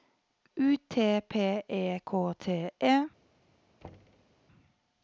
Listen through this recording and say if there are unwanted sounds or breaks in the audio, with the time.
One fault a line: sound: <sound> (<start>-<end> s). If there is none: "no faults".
sound: thud (3.8-4.3 s)